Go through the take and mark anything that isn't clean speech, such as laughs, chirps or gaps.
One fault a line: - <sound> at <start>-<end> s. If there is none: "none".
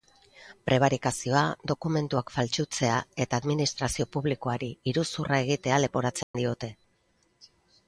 - dropout at 6.2-6.3 s